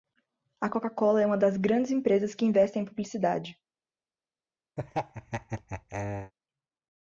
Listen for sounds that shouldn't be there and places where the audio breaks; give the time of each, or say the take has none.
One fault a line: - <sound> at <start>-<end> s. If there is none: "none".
- laugh at 4.8-6.3 s